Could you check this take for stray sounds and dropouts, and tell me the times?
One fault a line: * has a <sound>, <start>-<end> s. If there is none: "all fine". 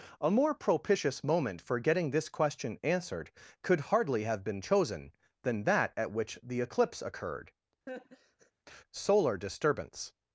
* has a laugh, 7.9-8.5 s